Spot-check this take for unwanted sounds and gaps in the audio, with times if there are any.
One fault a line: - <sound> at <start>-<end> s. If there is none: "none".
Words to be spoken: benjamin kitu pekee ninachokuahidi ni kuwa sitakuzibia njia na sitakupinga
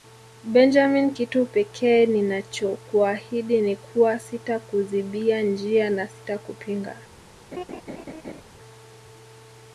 - laugh at 7.5-8.4 s